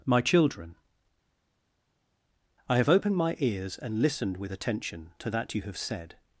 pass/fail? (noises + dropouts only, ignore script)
pass